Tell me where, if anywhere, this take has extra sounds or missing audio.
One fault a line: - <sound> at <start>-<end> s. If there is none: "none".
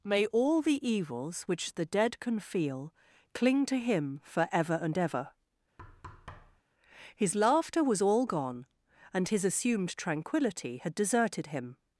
- thud at 5.8-6.6 s